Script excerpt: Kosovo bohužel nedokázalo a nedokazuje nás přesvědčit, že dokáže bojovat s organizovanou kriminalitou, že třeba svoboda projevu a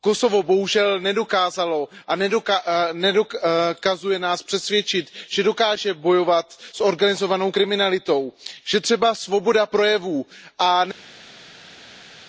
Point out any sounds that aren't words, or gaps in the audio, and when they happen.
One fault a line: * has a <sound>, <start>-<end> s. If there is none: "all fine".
all fine